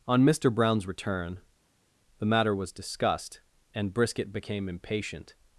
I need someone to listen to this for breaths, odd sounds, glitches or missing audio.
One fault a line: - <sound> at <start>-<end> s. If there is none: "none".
none